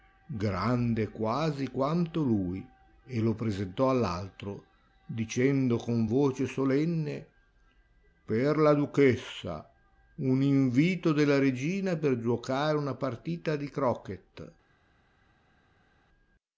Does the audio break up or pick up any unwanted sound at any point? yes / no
no